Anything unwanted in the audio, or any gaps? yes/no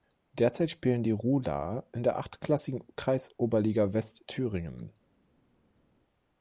no